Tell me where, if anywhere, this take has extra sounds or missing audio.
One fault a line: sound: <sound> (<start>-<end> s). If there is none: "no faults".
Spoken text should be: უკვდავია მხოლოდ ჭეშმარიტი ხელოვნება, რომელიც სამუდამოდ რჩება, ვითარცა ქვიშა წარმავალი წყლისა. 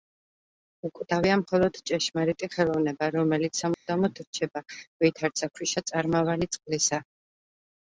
sound: dropout (3.7-3.9 s)